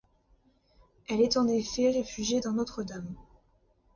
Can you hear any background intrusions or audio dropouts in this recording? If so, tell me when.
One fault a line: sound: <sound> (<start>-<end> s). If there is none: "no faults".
no faults